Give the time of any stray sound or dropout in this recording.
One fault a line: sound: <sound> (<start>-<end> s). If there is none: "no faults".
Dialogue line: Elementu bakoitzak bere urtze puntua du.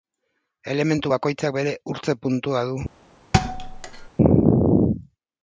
sound: thud (3.3-4.1 s)